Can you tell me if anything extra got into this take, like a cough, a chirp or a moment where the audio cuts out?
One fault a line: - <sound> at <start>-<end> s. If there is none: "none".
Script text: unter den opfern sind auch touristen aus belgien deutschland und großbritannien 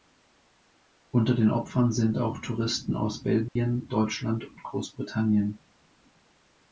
- dropout at 3.5-3.6 s